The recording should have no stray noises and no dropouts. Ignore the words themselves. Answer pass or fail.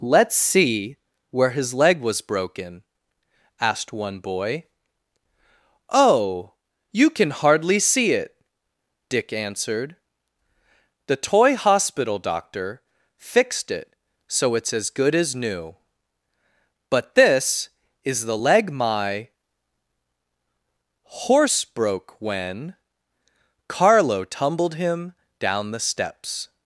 pass